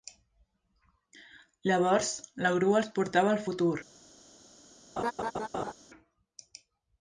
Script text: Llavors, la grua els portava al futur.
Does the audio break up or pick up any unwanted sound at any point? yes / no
yes